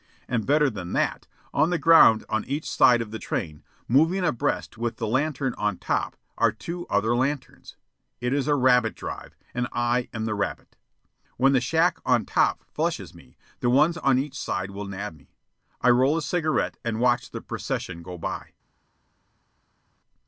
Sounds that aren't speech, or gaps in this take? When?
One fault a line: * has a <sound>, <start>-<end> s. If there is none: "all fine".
all fine